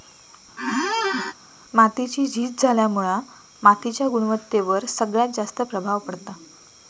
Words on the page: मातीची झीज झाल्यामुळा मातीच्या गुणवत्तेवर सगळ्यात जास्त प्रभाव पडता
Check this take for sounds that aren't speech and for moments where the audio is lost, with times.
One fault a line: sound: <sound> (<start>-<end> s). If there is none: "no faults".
sound: squeak (0.6-1.3 s)